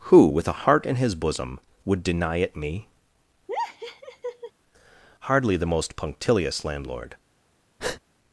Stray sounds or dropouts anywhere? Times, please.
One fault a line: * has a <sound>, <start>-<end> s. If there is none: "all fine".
* has a laugh, 3.5-4.5 s
* has a breath, 7.8-8.0 s